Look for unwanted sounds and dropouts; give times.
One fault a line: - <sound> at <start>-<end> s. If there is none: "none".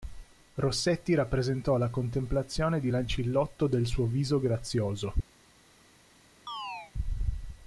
- chirp at 6.5-6.9 s